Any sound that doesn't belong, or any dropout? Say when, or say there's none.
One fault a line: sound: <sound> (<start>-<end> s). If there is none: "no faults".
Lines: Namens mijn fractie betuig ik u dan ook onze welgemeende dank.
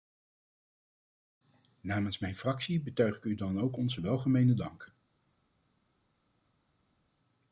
no faults